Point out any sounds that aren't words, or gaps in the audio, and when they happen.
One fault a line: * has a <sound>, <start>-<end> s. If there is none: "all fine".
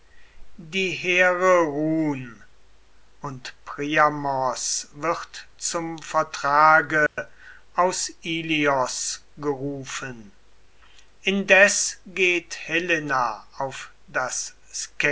* has a dropout, 7.1-7.2 s